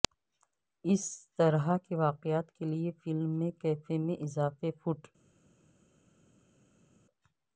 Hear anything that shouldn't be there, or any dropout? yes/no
no